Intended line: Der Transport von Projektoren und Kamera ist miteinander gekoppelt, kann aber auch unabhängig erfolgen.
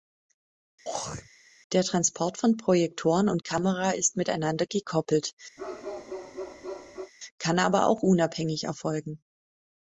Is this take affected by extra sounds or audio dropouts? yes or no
yes